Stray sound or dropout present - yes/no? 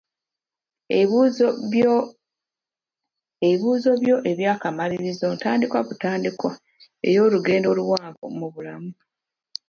no